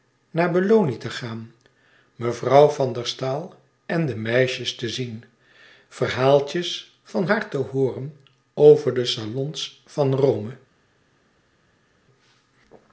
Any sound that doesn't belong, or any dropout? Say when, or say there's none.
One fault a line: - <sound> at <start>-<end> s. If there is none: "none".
none